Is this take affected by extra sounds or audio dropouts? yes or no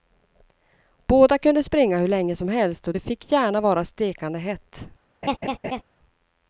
yes